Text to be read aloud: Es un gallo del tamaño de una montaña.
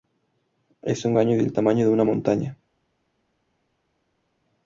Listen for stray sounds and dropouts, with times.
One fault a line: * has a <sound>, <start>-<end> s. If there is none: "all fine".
all fine